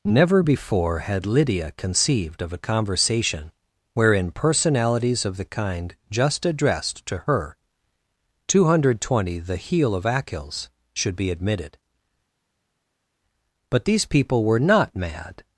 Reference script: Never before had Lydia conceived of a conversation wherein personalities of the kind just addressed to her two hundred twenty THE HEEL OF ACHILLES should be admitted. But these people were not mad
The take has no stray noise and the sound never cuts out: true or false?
true